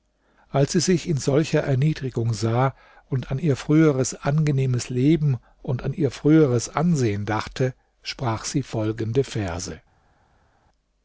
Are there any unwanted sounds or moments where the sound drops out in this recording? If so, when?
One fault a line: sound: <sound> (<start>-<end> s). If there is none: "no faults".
no faults